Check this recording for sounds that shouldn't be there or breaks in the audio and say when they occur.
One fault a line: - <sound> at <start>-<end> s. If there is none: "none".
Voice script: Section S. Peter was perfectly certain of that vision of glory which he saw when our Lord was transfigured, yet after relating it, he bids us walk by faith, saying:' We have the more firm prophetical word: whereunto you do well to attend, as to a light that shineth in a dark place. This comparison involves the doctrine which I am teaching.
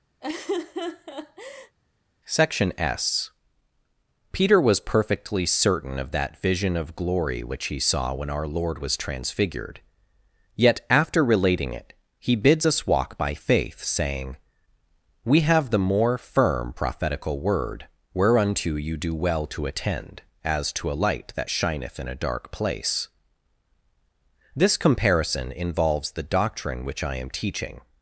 - laugh at 0.2-1.8 s